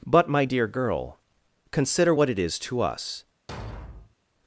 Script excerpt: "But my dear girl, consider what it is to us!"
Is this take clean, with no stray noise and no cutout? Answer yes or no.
no